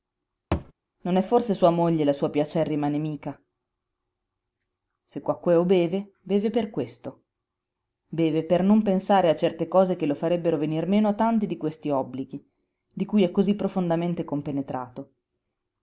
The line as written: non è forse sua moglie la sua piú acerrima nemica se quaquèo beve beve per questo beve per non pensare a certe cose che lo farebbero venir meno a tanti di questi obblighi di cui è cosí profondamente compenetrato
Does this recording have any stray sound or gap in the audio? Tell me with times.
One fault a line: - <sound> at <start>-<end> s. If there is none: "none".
- thud at 0.5-0.7 s